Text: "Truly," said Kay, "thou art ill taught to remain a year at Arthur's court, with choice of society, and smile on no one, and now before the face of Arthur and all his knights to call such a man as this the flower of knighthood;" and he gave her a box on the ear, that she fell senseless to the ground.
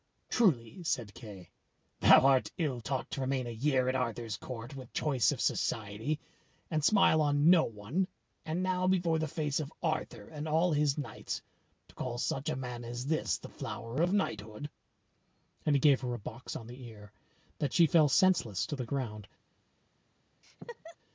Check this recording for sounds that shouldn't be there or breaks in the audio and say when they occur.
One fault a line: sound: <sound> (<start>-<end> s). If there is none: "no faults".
sound: laugh (20.4-21.0 s)